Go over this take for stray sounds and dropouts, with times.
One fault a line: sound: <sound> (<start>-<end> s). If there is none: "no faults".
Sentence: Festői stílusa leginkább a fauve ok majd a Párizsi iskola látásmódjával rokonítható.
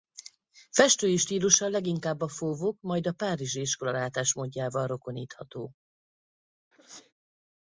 sound: sneeze (6.7-7.1 s)